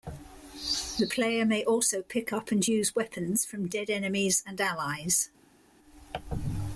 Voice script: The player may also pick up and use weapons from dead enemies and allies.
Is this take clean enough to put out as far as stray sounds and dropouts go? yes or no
yes